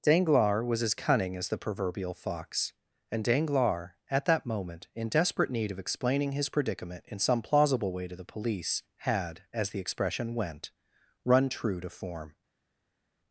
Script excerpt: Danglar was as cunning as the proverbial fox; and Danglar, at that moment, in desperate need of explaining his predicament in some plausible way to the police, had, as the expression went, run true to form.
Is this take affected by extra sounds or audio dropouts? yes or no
no